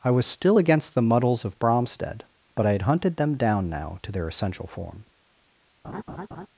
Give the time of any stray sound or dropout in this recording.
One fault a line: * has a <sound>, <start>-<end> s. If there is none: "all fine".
* has a laugh, 5.8-6.5 s